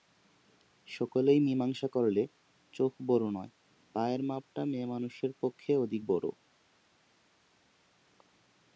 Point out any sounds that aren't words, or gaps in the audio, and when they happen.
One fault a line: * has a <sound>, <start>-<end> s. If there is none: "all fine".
all fine